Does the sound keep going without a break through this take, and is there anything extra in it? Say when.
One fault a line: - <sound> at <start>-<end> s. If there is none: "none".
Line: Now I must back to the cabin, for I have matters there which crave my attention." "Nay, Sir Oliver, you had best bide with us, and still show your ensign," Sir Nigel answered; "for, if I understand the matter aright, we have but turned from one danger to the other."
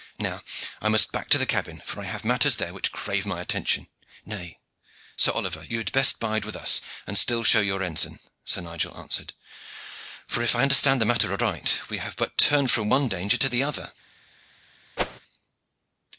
- whoosh at 15.0-15.2 s